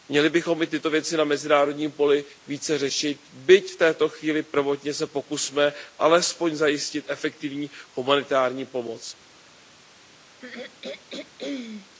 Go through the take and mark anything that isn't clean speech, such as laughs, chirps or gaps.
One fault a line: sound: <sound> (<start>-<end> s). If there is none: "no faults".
sound: throat clearing (10.4-11.9 s)